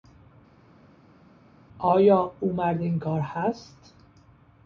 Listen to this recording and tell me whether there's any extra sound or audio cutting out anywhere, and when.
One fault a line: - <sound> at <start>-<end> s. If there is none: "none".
none